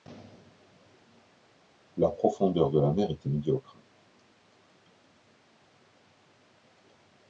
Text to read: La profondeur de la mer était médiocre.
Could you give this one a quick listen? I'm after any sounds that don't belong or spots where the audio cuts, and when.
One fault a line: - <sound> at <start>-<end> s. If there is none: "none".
none